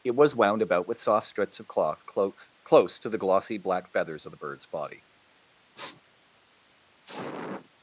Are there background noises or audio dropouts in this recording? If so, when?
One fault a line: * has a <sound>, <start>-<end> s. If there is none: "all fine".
* has a sniff, 5.8-6.0 s
* has a sneeze, 7.0-7.7 s